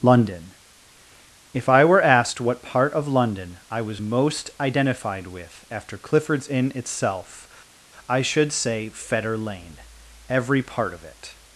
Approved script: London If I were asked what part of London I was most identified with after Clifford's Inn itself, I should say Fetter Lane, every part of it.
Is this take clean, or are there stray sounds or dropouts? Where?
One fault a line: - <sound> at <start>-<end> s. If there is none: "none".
none